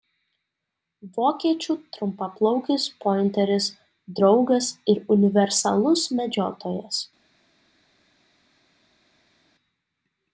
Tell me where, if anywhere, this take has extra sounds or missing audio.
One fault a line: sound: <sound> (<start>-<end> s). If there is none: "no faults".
no faults